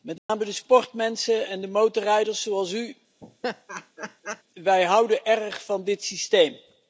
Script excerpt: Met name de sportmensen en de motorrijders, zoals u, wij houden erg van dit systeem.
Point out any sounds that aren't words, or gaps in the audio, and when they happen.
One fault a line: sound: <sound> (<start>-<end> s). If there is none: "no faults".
sound: dropout (0.2-0.3 s)
sound: laugh (3.2-4.4 s)